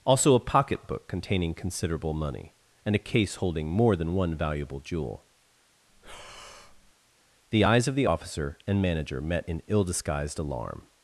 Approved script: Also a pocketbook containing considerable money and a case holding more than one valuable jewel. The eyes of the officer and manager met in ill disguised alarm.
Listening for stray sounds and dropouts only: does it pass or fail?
fail